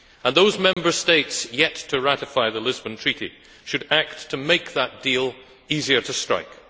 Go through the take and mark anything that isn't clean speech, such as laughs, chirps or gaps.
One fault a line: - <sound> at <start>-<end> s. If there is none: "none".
- dropout at 0.7-0.8 s